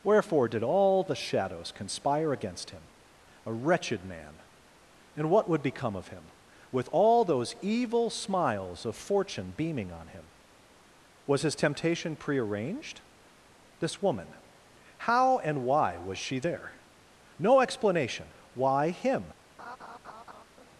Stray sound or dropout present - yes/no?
yes